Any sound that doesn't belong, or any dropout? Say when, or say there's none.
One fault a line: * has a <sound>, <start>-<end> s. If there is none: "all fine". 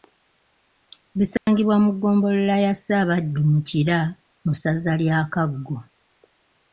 * has a dropout, 1.4-1.5 s